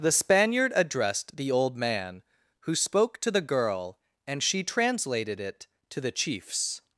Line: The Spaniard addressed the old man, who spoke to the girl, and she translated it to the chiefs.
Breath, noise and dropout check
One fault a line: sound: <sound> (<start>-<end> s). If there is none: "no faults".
no faults